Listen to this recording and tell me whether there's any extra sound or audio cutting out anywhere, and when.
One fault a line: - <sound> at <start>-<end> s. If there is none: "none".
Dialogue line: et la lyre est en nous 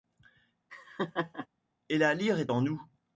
- laugh at 0.7-1.5 s